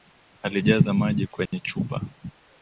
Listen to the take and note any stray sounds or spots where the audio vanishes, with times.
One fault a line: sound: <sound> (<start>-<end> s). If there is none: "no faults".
sound: dropout (1.5-1.5 s)